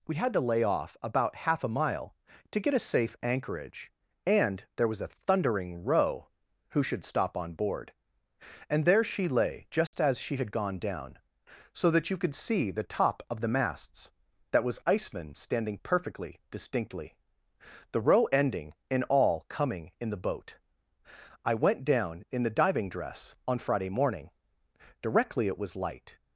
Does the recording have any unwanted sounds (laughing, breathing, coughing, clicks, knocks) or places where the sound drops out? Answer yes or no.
yes